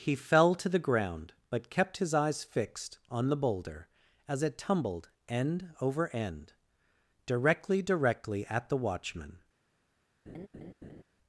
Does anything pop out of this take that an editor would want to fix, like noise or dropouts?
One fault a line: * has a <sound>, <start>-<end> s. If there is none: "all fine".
* has a laugh, 10.3-11.0 s